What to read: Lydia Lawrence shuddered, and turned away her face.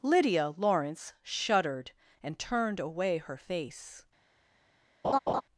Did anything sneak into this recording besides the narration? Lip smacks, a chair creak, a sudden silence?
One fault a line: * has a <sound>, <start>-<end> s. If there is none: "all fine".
* has a laugh, 5.0-5.4 s